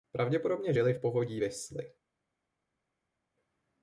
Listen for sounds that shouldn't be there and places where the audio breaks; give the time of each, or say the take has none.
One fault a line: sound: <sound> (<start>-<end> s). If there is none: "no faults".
no faults